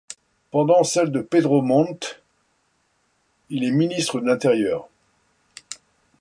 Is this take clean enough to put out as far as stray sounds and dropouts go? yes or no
yes